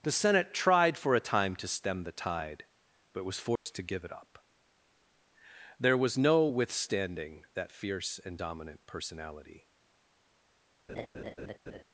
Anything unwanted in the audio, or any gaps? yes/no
yes